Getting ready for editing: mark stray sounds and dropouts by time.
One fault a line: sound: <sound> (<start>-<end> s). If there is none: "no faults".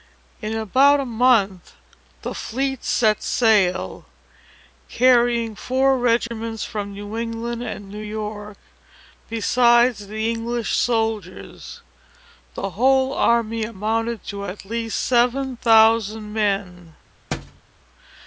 sound: dropout (6.3-6.3 s)
sound: thud (17.3-17.6 s)